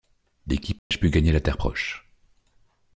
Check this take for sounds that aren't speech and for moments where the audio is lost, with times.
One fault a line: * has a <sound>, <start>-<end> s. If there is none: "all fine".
* has a dropout, 0.8-0.9 s